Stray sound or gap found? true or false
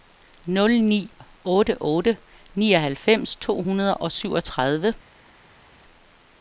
false